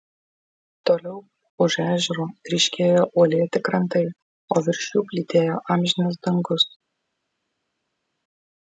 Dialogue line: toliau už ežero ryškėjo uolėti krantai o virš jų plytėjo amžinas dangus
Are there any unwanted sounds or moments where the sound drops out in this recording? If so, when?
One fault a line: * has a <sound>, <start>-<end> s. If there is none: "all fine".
all fine